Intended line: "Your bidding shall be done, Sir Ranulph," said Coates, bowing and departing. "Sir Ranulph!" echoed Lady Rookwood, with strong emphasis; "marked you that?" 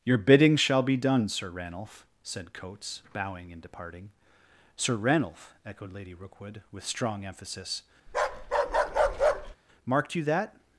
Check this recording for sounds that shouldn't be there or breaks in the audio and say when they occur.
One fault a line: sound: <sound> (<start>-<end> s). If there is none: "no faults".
sound: bark (8.1-9.6 s)